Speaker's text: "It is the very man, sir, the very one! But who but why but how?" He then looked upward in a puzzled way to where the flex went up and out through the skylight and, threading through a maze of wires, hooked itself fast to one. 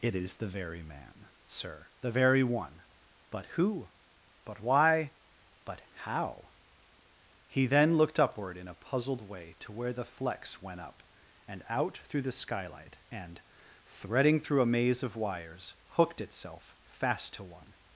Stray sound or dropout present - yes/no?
no